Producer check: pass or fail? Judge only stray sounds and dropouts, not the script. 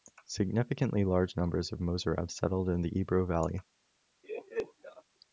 fail